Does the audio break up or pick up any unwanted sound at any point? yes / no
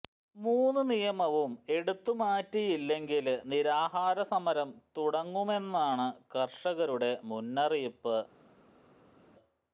no